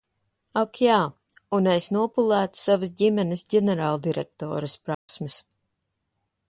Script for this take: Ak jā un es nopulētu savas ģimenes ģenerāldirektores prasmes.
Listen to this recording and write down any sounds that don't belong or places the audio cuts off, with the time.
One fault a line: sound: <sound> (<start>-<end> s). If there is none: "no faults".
sound: dropout (4.9-5.1 s)